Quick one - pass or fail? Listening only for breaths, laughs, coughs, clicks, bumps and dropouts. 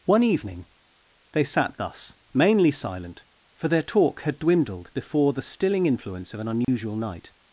fail